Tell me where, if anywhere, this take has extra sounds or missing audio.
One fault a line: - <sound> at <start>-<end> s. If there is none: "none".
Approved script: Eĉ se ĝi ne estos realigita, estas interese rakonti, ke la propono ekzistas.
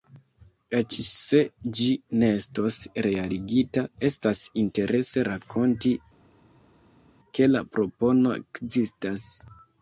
none